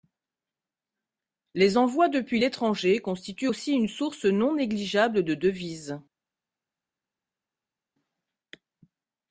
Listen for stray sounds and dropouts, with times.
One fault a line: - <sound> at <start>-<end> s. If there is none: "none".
none